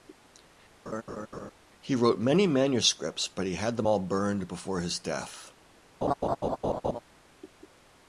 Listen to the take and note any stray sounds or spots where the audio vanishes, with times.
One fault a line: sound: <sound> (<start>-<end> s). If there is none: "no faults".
sound: laugh (0.9-1.5 s)
sound: laugh (6.0-7.0 s)